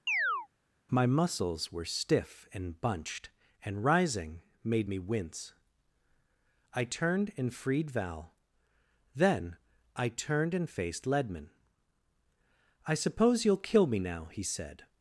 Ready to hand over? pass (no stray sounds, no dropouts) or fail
fail